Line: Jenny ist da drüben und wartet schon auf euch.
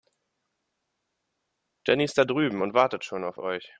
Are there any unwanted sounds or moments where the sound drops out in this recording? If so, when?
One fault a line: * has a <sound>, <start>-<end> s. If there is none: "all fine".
all fine